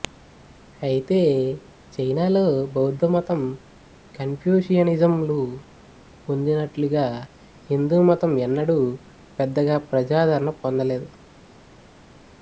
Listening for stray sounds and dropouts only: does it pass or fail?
pass